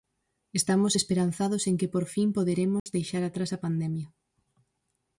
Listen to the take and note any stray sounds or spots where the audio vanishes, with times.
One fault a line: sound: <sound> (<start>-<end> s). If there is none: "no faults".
sound: dropout (2.8-2.9 s)